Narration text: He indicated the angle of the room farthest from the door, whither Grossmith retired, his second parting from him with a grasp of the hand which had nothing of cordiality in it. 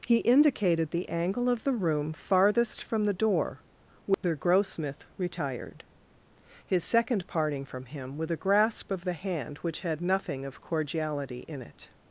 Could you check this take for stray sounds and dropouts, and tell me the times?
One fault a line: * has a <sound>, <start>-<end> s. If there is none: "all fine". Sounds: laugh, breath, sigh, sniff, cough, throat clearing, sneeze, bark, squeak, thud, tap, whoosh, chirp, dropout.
* has a dropout, 4.1-4.2 s